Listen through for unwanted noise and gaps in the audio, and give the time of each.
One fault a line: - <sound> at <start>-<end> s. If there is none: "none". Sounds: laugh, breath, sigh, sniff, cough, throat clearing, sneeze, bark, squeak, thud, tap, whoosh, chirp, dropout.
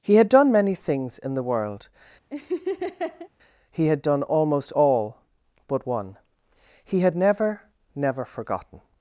- laugh at 2.3-3.3 s